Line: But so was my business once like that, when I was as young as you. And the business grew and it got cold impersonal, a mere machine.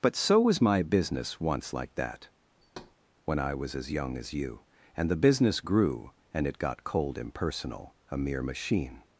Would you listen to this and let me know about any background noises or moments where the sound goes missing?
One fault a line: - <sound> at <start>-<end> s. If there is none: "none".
- thud at 2.6-2.9 s